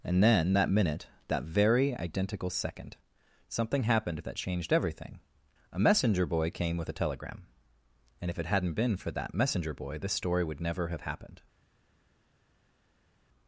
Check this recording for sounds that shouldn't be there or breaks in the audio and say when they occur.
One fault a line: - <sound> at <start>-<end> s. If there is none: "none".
none